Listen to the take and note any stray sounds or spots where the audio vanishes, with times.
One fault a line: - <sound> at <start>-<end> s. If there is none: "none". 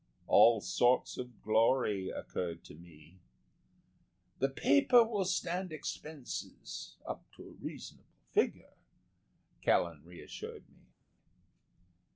none